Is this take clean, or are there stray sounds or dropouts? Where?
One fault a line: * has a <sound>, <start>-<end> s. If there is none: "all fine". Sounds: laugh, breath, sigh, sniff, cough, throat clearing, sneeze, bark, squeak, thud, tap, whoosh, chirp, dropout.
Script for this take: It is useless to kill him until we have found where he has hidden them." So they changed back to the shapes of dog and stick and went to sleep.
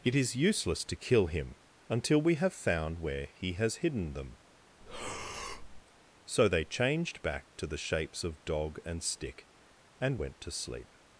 * has a breath, 4.8-5.8 s